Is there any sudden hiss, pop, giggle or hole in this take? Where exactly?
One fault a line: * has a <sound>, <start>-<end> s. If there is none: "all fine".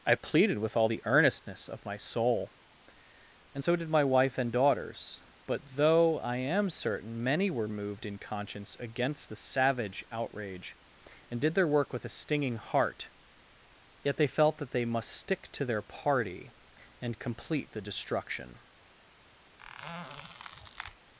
* has a squeak, 19.6-21.0 s